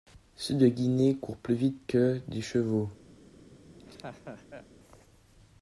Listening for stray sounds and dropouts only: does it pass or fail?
fail